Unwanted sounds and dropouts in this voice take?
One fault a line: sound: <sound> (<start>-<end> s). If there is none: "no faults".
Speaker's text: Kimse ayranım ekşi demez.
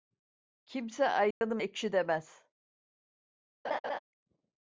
sound: dropout (1.3-1.4 s)
sound: laugh (3.6-4.0 s)